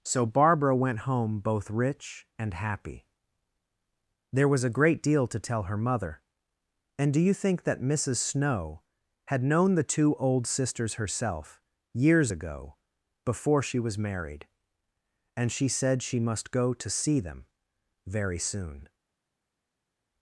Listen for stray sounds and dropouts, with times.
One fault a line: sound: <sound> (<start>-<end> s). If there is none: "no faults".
no faults